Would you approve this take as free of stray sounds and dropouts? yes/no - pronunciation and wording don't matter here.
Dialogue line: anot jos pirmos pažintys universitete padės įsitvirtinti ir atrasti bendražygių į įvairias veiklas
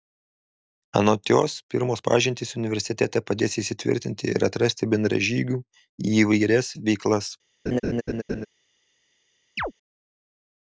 no